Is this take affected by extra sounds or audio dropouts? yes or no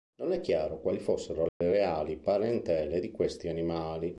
yes